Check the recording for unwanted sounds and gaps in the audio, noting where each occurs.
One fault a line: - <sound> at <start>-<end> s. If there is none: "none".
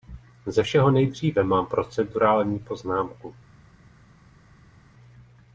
none